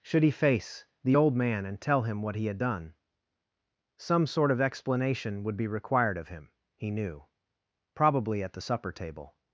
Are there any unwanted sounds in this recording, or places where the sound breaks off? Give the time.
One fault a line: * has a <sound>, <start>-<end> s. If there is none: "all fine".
all fine